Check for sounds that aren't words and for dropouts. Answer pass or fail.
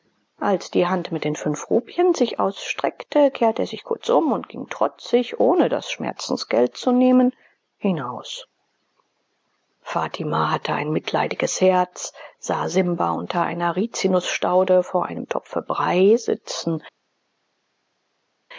pass